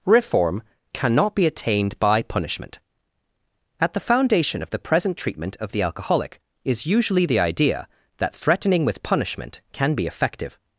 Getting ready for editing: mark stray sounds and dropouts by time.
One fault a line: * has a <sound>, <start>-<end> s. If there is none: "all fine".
all fine